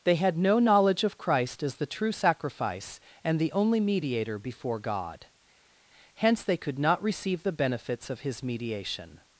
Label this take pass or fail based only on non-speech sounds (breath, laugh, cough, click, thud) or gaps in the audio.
pass